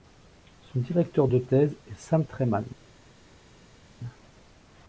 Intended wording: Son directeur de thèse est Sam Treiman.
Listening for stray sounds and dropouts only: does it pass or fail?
pass